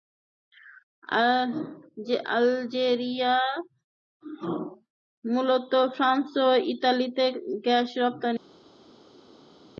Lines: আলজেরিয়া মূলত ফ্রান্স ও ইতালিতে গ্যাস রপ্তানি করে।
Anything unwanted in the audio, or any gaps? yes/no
no